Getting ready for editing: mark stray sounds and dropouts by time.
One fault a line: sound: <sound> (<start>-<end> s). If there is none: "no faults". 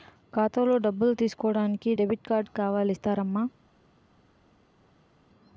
no faults